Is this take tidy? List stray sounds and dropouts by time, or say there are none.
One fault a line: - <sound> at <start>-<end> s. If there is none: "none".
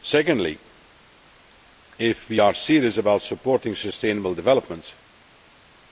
none